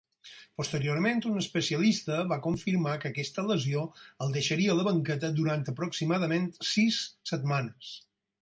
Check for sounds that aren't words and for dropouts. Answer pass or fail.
pass